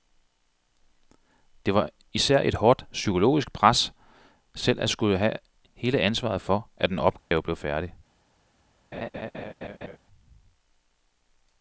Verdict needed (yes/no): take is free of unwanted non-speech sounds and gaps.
no